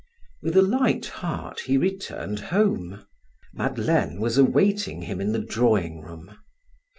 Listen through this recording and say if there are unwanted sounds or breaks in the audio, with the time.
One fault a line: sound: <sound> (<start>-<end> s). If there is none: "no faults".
no faults